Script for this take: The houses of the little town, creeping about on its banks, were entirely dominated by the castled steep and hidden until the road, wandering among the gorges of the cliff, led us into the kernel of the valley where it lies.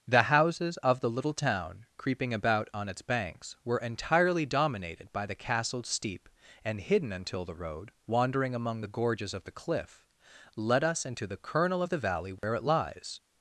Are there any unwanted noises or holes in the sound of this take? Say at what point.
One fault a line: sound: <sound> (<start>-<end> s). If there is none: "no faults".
sound: dropout (12.4-12.4 s)